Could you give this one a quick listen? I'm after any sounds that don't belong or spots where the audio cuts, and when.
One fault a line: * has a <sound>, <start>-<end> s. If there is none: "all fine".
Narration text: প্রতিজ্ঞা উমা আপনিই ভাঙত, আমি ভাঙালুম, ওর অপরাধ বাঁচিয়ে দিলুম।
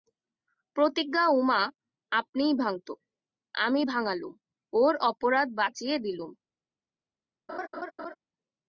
* has a laugh, 7.5-8.2 s